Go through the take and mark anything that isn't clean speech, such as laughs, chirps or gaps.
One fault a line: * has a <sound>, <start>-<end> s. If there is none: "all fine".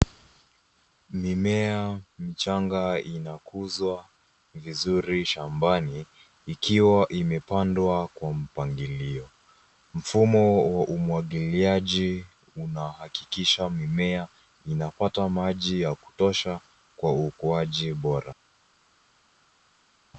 all fine